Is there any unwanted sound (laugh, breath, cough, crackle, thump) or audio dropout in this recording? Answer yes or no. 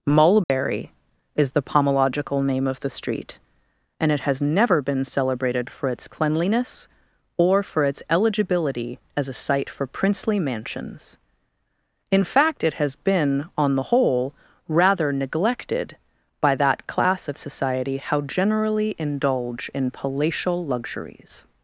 yes